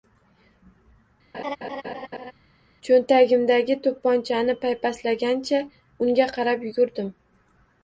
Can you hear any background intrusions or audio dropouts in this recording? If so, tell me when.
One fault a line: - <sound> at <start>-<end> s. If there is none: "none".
- laugh at 1.3-2.3 s